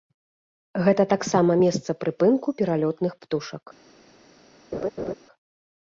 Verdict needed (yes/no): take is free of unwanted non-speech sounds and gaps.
no